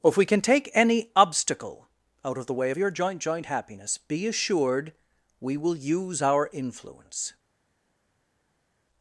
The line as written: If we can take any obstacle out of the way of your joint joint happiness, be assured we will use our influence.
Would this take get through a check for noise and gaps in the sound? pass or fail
pass